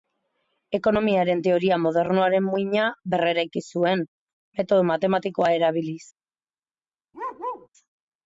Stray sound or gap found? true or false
true